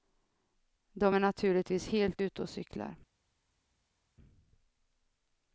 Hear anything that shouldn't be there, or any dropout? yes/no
no